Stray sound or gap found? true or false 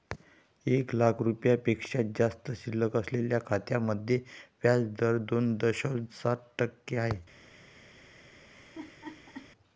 true